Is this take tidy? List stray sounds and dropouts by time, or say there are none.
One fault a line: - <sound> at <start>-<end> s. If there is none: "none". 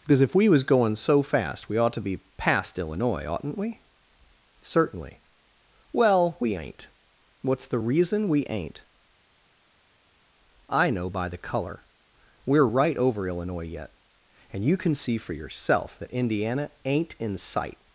none